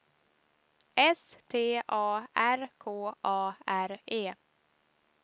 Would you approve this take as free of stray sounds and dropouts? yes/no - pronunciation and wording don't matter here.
yes